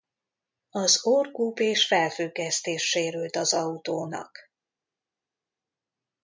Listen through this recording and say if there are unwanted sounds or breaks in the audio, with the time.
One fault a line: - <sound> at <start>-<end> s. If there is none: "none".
none